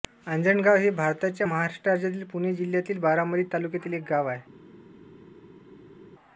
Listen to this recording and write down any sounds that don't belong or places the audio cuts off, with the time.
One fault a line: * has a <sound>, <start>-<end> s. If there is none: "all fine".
all fine